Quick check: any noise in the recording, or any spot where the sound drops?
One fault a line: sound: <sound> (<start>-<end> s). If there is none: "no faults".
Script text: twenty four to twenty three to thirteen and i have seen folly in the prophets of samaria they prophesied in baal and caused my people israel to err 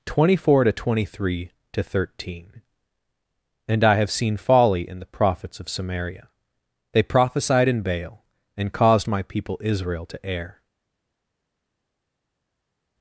no faults